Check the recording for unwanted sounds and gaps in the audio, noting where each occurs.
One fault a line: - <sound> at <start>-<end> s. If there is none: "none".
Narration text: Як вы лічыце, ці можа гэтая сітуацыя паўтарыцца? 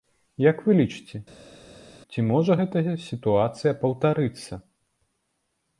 none